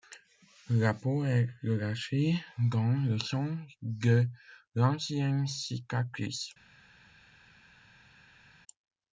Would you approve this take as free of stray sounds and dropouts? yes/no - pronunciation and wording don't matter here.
yes